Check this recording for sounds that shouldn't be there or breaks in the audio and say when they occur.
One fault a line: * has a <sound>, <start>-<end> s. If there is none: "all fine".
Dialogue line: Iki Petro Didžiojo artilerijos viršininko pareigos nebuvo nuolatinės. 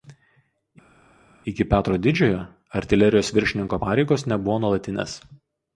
all fine